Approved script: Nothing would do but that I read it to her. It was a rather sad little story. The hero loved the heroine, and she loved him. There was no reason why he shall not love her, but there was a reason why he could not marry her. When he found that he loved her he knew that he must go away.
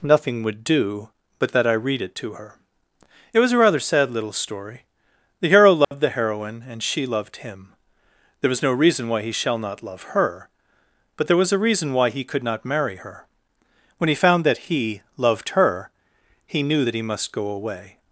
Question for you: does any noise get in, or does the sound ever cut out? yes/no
yes